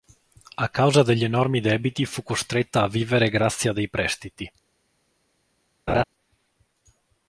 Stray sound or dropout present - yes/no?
yes